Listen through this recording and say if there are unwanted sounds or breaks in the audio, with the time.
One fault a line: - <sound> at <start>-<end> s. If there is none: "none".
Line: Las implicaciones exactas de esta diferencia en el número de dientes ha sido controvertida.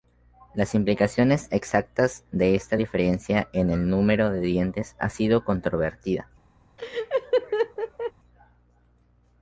- laugh at 6.8-8.1 s